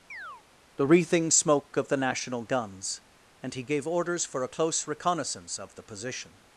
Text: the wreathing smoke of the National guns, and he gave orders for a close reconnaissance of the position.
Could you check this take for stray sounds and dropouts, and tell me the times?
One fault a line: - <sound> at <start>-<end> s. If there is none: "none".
- chirp at 0.1-0.4 s